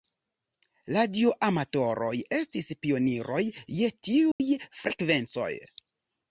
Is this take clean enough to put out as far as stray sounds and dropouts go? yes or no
no